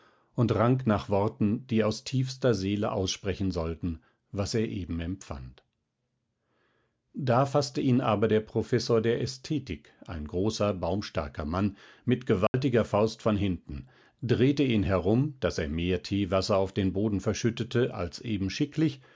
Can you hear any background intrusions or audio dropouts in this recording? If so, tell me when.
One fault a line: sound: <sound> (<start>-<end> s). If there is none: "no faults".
sound: dropout (12.5-12.5 s)